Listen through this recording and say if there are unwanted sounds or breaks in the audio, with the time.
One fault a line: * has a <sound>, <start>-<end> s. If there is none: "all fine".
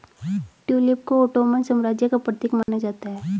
* has a dropout, 2.6-2.7 s